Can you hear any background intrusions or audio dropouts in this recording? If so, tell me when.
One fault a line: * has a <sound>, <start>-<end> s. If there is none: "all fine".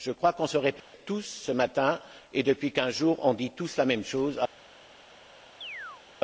* has a dropout, 0.8-0.9 s
* has a chirp, 5.6-6.0 s